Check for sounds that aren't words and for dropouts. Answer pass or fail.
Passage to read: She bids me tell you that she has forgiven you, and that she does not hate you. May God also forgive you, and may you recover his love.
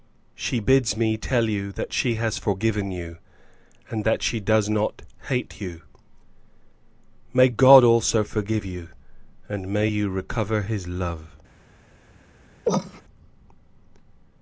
fail